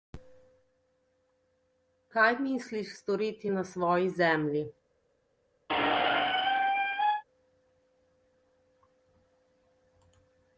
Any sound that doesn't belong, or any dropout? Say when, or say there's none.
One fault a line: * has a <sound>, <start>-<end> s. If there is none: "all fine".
* has a squeak, 5.7-7.2 s